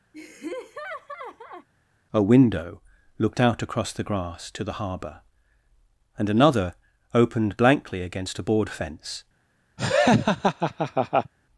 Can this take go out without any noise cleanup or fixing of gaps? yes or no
no